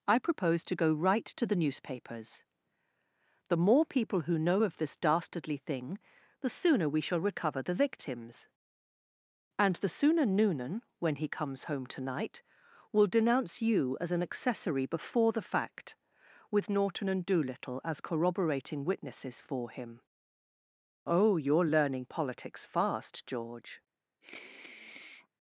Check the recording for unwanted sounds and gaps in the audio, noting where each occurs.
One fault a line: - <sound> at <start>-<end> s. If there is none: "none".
- sniff at 24.2-25.3 s